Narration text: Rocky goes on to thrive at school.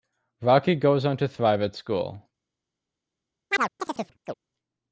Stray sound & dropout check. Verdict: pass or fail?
fail